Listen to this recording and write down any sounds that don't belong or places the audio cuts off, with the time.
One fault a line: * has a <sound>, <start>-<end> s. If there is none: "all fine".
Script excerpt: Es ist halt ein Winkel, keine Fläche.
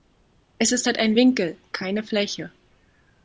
all fine